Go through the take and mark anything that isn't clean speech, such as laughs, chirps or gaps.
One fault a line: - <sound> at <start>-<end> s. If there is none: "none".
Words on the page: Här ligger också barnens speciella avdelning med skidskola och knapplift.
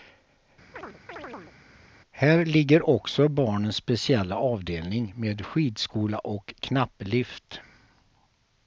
- chirp at 0.7-1.6 s